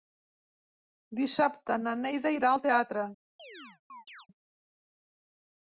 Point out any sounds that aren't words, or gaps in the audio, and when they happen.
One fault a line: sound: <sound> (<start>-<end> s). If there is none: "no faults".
sound: chirp (3.4-4.3 s)